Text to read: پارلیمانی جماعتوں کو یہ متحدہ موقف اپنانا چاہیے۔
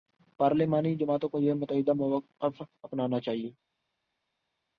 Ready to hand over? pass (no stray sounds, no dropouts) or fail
pass